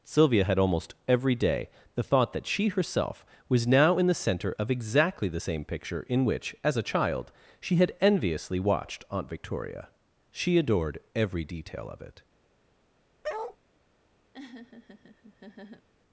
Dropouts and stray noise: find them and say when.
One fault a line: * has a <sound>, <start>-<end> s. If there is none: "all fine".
* has a bark, 13.2-13.6 s
* has a laugh, 14.3-15.9 s